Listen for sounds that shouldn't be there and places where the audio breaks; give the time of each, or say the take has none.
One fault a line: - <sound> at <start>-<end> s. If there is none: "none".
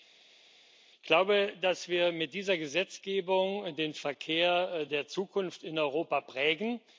none